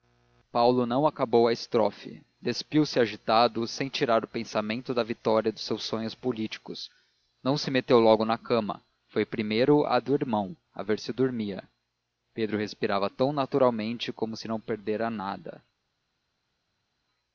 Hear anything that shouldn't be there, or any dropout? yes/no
no